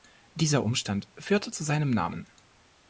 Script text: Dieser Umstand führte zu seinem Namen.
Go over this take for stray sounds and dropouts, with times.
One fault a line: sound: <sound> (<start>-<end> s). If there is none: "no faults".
no faults